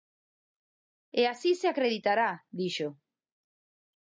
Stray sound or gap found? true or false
false